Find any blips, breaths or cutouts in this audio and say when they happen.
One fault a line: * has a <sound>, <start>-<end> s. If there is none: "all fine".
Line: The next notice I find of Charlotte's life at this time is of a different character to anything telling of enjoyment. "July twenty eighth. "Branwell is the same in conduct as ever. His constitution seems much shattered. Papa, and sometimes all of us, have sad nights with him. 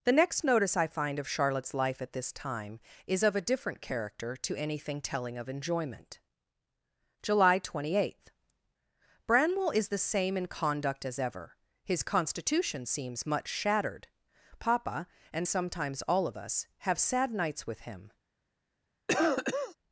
* has a cough, 19.1-19.8 s